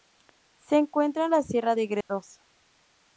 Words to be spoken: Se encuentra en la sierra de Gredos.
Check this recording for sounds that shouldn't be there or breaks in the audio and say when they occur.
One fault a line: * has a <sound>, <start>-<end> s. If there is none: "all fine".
* has a dropout, 2.0-2.1 s